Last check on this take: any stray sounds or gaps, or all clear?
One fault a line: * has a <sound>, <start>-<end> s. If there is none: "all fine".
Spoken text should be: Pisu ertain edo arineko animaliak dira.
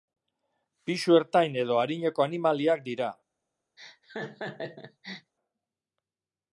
* has a laugh, 3.8-5.3 s